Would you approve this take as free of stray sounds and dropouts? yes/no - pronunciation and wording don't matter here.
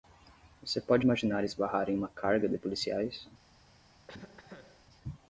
no